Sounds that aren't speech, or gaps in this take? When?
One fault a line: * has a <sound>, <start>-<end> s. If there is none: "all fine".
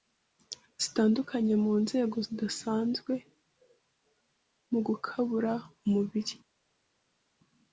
all fine